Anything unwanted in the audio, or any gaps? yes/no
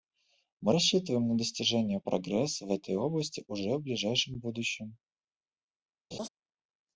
yes